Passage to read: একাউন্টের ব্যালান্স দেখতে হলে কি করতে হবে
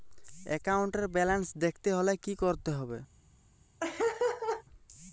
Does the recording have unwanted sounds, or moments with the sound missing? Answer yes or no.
yes